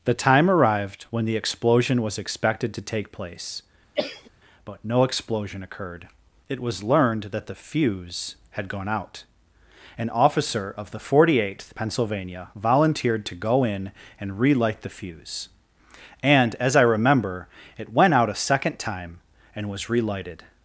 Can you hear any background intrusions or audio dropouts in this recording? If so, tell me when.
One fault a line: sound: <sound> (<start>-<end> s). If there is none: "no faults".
sound: cough (4.0-4.3 s)